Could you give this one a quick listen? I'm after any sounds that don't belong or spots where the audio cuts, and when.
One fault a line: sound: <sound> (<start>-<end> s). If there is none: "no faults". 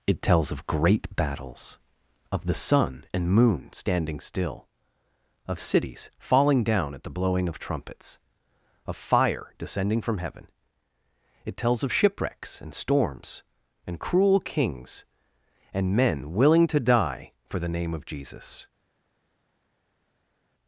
no faults